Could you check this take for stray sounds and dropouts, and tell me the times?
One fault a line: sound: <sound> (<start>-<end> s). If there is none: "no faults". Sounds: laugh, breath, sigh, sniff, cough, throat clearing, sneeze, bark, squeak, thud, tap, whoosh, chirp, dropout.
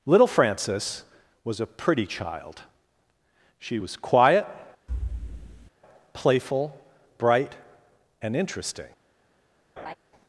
sound: thud (4.9-5.7 s)
sound: laugh (9.8-9.9 s)